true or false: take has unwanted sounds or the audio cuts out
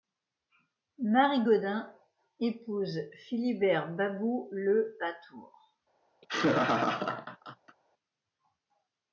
true